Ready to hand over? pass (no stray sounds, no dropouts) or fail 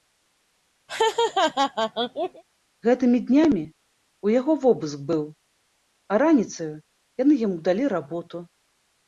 fail